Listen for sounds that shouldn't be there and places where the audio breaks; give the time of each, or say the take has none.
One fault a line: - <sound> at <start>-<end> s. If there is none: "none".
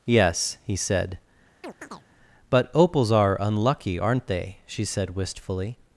- chirp at 1.6-2.1 s